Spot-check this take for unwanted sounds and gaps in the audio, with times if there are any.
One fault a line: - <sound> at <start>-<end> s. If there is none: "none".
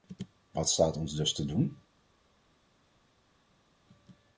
none